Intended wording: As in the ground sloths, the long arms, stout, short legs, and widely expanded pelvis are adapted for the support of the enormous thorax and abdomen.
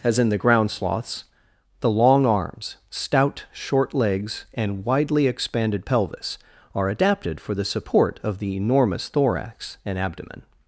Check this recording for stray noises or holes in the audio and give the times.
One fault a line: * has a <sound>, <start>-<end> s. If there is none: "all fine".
all fine